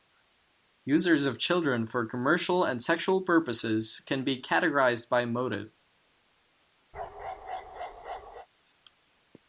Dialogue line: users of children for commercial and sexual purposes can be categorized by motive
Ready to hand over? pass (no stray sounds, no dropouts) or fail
fail